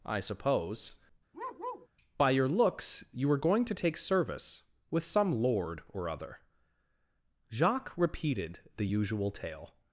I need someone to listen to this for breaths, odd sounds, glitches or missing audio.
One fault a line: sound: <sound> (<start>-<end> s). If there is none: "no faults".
sound: bark (1.3-1.9 s)